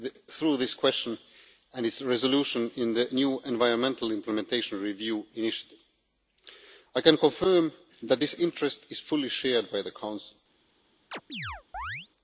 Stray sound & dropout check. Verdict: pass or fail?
fail